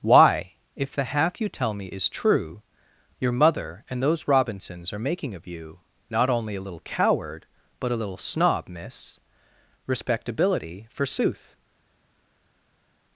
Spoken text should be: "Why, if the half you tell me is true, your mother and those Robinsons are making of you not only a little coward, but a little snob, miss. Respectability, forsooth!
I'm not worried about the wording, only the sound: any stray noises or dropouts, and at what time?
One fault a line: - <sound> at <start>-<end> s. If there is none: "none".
none